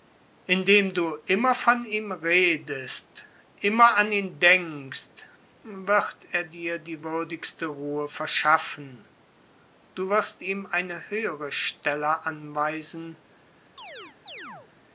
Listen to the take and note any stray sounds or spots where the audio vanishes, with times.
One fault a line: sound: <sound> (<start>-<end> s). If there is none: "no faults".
sound: chirp (13.8-14.7 s)